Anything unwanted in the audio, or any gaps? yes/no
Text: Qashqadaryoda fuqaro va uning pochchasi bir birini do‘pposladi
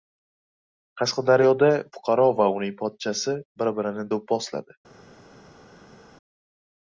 no